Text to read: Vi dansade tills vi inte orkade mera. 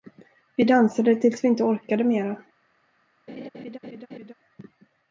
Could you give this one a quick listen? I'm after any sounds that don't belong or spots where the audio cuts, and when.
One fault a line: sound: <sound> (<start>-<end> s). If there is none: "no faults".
sound: laugh (3.3-4.3 s)